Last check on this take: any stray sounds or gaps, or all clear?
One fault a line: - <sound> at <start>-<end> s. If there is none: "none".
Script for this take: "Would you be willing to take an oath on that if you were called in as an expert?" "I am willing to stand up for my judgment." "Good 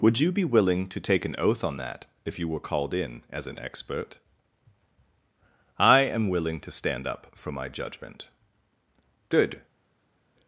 none